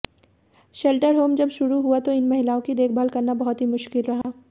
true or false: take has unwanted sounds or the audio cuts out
true